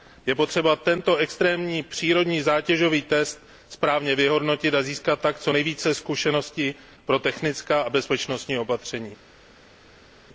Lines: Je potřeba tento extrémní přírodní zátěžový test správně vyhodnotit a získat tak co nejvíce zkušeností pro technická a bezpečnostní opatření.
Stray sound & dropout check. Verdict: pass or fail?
pass